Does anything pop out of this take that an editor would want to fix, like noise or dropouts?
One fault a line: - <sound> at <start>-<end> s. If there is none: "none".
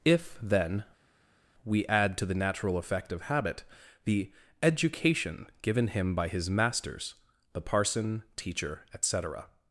none